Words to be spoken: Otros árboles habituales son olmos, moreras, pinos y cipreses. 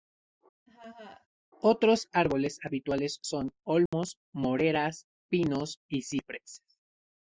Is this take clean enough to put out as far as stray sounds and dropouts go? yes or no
no